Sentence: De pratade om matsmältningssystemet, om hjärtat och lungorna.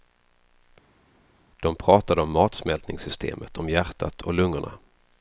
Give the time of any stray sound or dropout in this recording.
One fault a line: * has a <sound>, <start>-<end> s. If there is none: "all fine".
all fine